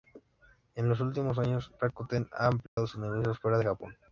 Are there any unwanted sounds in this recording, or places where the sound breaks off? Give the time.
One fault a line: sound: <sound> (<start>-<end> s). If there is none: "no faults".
sound: dropout (2.7-2.8 s)